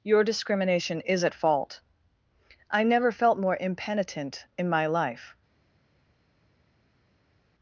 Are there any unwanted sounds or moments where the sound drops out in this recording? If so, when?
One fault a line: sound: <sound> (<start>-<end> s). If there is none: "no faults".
no faults